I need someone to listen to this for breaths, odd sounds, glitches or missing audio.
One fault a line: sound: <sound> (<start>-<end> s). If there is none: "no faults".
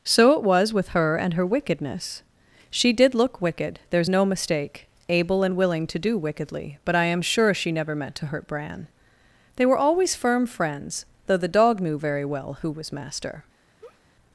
sound: laugh (13.8-14.0 s)